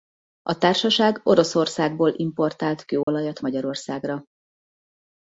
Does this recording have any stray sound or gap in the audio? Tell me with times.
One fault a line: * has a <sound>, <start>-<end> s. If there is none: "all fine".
* has a dropout, 3.0-3.1 s